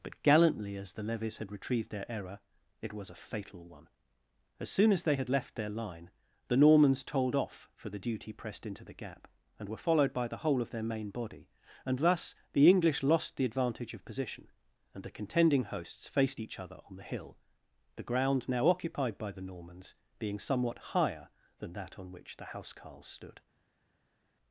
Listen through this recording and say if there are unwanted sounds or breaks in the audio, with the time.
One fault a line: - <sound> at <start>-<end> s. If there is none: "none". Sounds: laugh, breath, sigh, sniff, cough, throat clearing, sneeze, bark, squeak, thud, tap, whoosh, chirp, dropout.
none